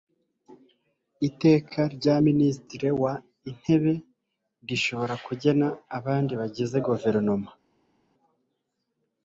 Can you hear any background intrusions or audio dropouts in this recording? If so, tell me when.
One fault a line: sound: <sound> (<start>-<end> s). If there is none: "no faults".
no faults